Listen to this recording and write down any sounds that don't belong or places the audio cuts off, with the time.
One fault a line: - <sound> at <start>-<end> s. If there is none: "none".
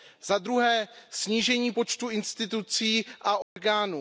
- dropout at 3.4-3.6 s